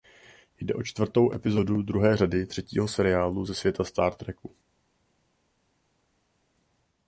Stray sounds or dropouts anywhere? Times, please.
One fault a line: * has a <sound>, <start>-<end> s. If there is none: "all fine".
all fine